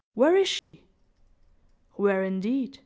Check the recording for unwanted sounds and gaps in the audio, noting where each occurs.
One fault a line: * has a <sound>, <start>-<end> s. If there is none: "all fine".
* has a dropout, 0.6-0.7 s